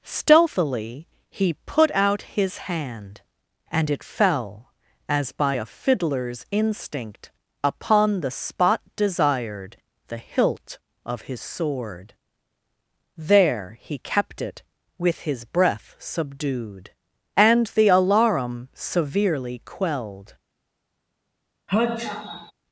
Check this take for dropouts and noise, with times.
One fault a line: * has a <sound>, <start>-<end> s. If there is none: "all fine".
* has a sneeze, 21.7-22.5 s